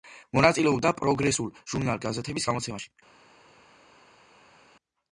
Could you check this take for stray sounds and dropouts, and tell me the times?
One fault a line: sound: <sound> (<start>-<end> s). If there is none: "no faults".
no faults